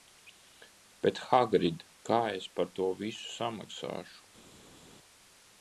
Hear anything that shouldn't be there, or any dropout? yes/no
no